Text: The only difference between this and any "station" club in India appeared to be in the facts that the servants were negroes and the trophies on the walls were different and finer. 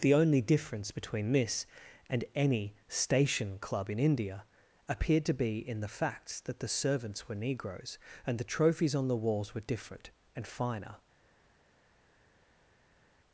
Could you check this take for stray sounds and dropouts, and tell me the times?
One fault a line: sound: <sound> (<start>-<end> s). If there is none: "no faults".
no faults